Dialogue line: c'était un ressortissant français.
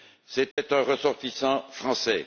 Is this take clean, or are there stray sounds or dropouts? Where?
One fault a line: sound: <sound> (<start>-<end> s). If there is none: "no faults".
sound: dropout (0.5-0.6 s)